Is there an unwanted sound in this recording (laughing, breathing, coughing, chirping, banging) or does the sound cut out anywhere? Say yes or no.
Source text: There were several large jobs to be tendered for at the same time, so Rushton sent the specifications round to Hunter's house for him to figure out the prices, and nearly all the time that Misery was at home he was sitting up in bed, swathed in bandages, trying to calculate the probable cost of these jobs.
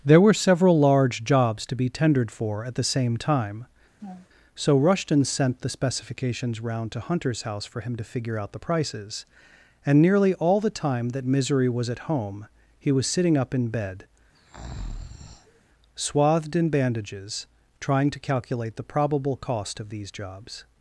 yes